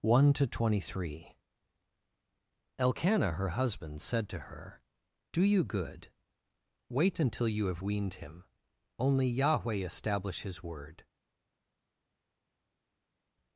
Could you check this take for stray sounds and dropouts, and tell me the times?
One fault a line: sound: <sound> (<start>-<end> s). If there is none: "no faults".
no faults